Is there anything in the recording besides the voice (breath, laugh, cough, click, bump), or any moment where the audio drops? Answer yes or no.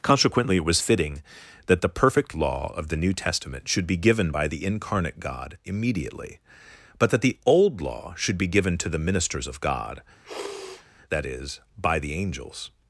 yes